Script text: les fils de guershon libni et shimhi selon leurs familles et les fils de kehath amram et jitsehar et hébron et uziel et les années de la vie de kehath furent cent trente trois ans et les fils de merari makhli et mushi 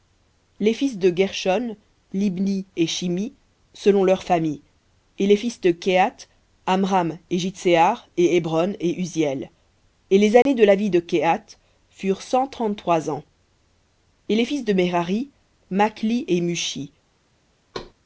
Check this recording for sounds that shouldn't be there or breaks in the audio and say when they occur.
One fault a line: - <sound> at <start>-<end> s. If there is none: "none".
- dropout at 10.4-10.5 s
- thud at 17.7-17.9 s